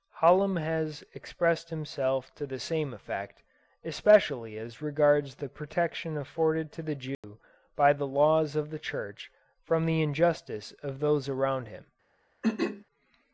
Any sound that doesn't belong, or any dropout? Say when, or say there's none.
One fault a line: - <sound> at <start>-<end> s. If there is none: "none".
- dropout at 7.1-7.2 s
- throat clearing at 12.4-12.8 s